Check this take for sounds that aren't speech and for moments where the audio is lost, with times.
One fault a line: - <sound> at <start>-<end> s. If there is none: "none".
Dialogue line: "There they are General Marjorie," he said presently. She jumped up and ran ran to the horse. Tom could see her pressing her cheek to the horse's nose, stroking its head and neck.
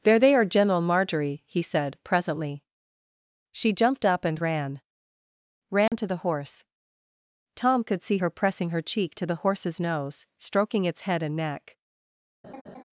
- dropout at 5.9-5.9 s
- laugh at 12.4-12.8 s